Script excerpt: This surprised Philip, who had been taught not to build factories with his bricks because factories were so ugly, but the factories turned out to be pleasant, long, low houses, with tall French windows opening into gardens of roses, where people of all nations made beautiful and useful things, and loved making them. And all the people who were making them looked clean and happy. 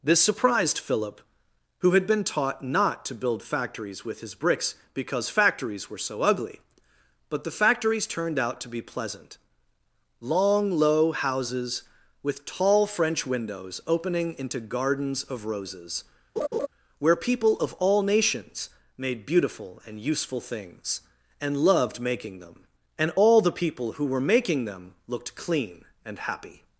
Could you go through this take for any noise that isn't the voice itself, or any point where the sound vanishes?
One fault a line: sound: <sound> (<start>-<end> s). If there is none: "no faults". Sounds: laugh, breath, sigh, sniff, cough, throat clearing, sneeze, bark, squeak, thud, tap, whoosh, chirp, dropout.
sound: laugh (16.4-16.7 s)